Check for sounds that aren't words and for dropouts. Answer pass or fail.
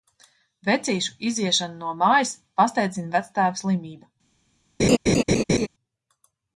fail